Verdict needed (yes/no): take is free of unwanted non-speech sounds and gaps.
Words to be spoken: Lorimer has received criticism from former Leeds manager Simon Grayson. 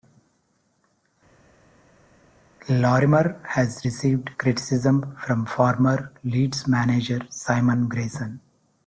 yes